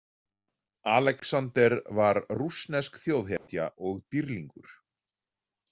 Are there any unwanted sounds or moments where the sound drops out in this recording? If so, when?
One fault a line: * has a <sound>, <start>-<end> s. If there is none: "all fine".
* has a dropout, 3.4-3.5 s